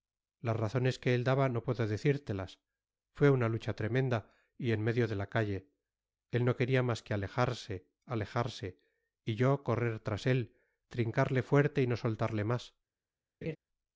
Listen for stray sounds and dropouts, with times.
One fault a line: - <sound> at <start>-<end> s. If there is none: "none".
- laugh at 13.4-13.6 s